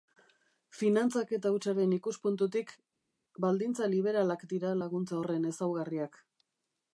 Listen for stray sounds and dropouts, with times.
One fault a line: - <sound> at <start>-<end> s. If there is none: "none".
none